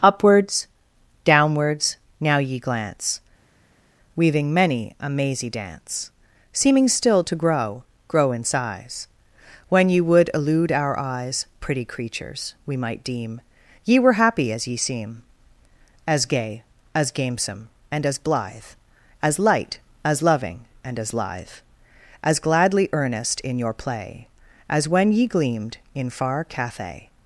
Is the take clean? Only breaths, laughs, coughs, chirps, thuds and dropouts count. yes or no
yes